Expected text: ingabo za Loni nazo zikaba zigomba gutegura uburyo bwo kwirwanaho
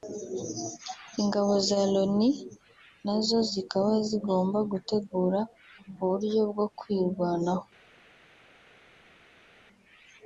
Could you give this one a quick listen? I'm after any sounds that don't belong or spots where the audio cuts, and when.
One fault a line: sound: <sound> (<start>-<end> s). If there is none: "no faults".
no faults